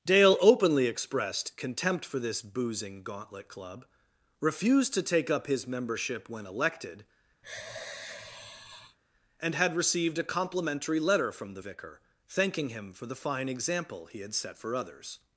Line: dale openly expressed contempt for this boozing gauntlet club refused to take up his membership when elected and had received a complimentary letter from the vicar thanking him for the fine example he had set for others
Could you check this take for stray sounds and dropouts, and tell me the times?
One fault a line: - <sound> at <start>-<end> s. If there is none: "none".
- sigh at 7.4-9.0 s